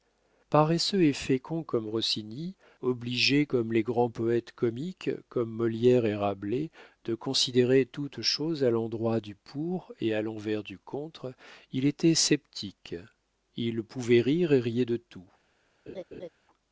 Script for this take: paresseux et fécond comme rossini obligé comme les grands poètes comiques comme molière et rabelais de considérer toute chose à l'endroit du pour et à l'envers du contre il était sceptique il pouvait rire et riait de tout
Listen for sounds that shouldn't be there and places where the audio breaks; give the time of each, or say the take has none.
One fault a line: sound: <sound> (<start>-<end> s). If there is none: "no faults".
sound: laugh (15.9-16.3 s)